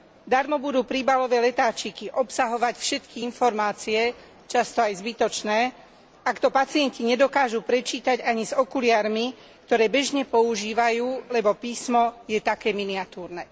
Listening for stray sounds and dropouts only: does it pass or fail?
pass